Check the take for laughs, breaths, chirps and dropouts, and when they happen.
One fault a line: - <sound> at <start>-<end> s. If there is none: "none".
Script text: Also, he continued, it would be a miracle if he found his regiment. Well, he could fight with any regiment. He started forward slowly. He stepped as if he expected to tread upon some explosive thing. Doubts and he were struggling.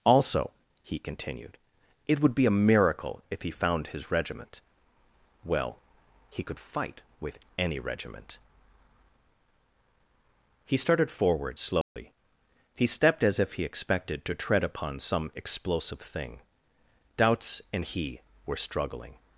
- dropout at 11.8-12.0 s